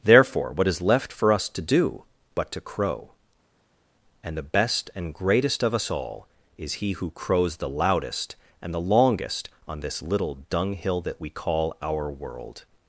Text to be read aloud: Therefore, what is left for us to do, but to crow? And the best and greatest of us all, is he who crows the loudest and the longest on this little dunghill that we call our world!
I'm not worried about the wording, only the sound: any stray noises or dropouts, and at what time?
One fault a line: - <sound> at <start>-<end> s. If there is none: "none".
none